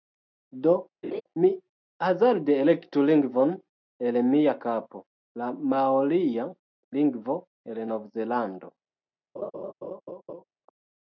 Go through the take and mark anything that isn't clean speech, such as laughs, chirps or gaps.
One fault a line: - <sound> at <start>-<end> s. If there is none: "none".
- laugh at 1.0-1.2 s
- laugh at 9.4-10.4 s